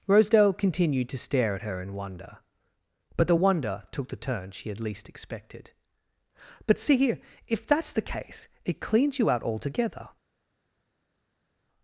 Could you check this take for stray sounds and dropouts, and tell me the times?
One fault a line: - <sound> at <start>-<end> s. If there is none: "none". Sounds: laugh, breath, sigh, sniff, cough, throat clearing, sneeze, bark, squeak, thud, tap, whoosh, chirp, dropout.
none